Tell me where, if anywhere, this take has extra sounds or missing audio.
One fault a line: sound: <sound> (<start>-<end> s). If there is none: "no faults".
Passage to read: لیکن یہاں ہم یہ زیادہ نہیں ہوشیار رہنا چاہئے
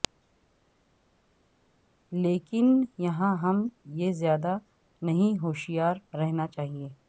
no faults